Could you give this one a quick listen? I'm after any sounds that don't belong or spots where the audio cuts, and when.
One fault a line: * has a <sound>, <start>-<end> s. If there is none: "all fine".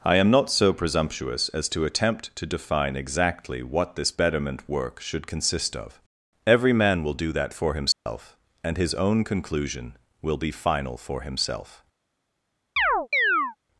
* has a dropout, 7.9-8.1 s
* has a chirp, 12.8-13.6 s